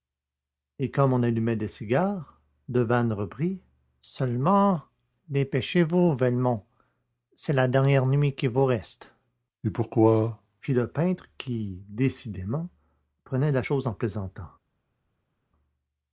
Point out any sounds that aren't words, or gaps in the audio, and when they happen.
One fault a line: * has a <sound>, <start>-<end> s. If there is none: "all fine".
all fine